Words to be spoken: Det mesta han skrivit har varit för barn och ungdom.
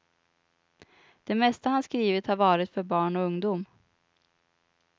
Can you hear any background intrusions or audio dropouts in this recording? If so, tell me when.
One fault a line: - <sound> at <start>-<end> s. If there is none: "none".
none